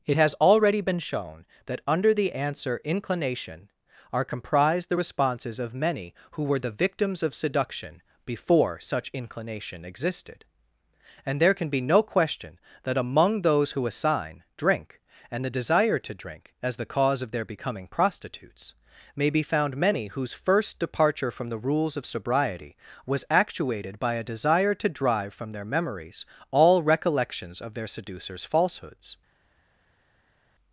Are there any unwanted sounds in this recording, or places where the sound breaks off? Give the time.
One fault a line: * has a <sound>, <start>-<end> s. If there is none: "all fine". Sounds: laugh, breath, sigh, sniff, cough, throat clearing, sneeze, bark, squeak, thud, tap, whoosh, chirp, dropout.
all fine